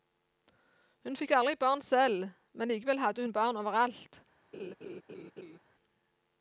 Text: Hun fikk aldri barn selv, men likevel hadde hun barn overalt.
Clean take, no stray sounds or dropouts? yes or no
no